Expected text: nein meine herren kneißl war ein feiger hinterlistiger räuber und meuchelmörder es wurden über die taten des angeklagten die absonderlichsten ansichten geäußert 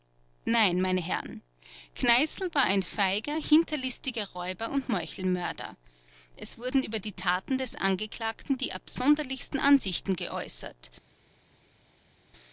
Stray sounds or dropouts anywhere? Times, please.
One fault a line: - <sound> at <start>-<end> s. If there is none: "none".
none